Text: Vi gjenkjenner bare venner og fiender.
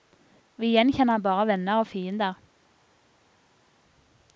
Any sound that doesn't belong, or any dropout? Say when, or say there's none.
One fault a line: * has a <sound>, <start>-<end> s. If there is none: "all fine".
all fine